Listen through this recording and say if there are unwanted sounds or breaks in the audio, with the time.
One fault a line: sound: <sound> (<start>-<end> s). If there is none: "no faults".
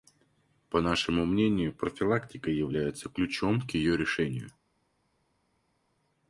no faults